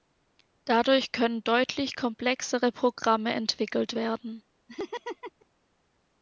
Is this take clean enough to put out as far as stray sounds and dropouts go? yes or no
no